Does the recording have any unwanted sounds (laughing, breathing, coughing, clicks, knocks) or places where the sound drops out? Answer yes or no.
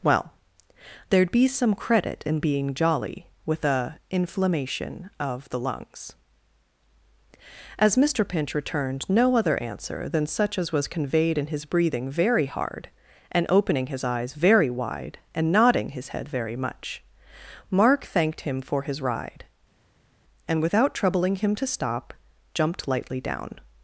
no